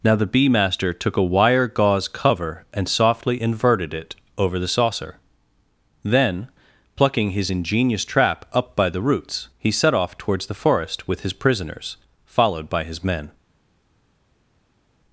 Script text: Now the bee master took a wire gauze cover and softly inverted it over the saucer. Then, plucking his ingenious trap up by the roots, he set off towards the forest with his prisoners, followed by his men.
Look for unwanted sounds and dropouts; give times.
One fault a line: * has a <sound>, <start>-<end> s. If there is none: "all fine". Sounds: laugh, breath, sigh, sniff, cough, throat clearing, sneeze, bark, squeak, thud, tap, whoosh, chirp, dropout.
all fine